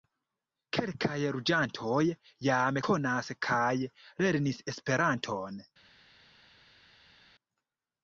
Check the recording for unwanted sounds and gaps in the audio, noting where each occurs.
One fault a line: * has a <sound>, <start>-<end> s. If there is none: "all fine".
all fine